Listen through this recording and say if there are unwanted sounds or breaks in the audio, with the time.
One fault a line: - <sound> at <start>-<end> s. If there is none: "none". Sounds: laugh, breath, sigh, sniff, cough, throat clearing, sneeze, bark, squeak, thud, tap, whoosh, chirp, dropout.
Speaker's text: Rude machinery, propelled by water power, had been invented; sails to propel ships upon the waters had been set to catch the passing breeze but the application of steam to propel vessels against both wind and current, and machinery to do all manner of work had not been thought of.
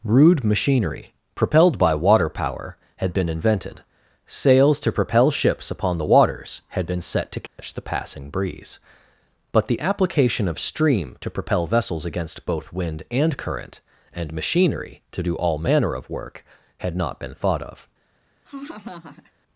- dropout at 7.5-7.6 s
- laugh at 18.4-19.3 s